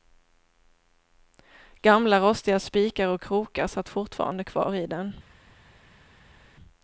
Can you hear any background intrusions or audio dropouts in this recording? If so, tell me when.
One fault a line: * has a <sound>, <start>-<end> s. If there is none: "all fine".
all fine